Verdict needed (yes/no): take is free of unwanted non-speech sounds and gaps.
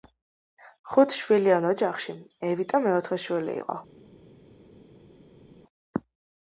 yes